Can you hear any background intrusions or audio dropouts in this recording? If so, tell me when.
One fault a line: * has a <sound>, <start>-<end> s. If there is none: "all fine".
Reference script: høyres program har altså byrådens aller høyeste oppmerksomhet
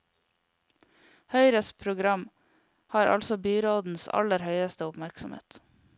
all fine